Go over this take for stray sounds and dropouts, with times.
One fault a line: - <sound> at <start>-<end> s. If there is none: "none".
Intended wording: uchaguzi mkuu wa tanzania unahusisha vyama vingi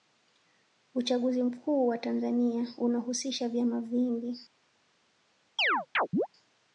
- chirp at 5.6-6.3 s